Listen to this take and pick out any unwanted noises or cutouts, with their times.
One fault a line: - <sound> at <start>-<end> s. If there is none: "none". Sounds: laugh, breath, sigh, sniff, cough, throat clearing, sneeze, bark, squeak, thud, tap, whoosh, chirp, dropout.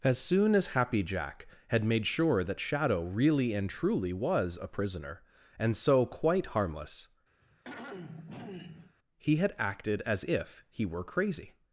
- throat clearing at 7.4-9.0 s